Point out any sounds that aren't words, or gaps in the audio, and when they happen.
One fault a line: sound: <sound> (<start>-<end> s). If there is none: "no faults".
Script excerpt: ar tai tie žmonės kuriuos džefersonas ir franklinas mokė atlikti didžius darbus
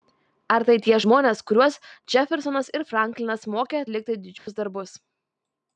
sound: dropout (4.4-4.5 s)